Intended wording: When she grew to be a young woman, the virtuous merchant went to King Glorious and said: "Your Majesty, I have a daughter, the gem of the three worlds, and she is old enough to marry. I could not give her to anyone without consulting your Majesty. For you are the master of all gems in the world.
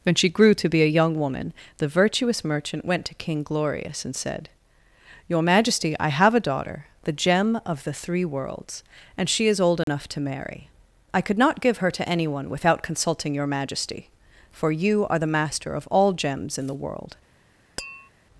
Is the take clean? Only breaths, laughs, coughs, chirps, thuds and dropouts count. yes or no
no